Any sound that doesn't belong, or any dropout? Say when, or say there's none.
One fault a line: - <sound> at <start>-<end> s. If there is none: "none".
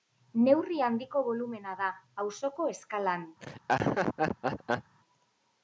- laugh at 3.4-4.9 s